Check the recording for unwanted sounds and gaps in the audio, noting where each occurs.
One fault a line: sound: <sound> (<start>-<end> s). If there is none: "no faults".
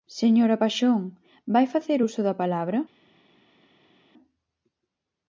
no faults